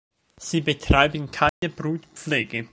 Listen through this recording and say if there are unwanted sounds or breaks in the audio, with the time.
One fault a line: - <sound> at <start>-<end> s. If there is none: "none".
- dropout at 1.5-1.6 s